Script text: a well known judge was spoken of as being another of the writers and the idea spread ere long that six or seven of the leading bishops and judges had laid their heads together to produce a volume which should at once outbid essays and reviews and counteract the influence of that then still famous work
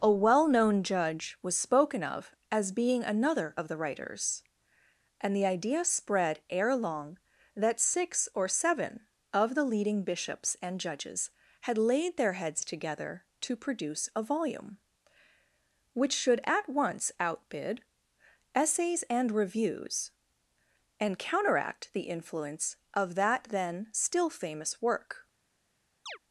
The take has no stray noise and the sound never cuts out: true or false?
false